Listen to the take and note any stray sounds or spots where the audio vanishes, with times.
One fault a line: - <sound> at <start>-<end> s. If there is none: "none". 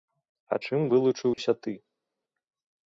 - dropout at 1.3-1.4 s